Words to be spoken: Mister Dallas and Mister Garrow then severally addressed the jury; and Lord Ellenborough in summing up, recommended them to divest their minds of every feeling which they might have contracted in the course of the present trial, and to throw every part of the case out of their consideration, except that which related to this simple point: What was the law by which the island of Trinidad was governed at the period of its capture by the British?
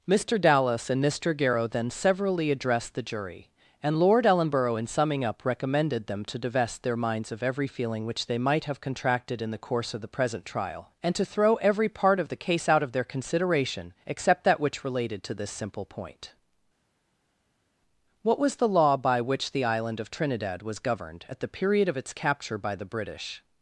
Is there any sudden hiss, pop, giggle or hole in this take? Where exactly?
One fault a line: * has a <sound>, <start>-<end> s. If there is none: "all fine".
all fine